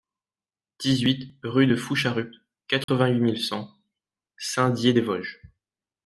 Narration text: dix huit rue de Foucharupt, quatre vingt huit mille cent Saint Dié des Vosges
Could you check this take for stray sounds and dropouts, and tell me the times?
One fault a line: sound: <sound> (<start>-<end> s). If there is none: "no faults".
sound: dropout (2.8-2.9 s)